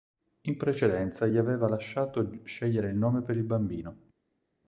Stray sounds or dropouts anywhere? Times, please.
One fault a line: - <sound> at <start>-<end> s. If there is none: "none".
none